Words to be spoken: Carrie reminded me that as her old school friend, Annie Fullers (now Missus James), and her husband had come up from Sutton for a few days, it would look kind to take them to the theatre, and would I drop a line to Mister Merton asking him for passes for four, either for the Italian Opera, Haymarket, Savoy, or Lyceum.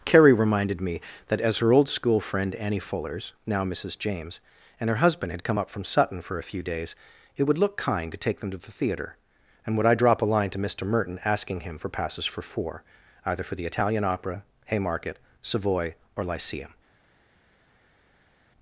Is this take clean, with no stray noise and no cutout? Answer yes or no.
yes